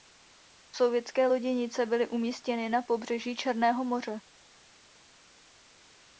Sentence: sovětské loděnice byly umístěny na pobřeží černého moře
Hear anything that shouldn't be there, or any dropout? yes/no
no